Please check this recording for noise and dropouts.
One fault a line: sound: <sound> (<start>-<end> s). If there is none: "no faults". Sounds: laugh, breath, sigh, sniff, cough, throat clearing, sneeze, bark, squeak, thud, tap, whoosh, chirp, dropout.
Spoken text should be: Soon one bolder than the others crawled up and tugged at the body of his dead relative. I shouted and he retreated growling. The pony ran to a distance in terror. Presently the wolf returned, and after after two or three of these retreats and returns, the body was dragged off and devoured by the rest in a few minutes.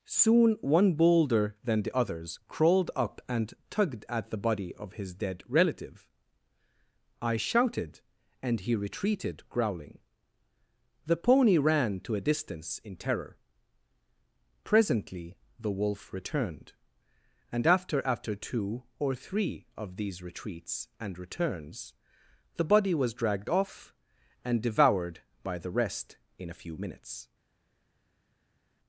no faults